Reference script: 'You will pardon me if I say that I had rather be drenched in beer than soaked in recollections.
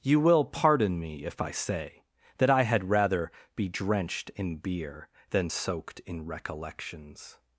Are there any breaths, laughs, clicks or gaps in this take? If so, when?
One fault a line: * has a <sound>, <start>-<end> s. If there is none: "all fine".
all fine